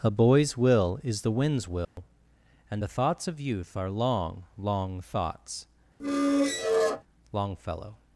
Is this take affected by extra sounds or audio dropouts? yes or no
yes